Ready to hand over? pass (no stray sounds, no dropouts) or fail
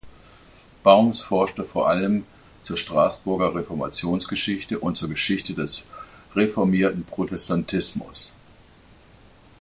pass